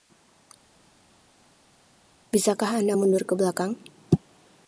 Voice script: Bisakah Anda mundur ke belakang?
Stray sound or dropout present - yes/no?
no